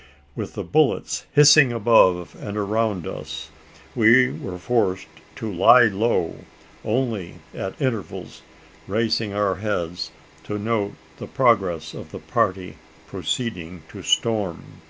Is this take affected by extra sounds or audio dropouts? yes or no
no